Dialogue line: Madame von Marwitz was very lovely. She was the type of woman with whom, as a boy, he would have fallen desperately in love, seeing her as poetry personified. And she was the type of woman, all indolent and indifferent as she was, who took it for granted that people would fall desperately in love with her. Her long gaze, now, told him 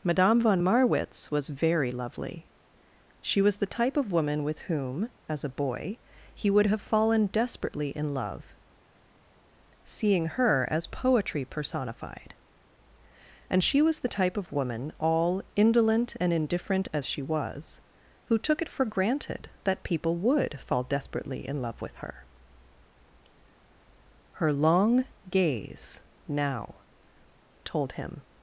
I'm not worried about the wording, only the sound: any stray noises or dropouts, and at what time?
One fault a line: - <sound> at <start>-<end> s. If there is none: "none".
none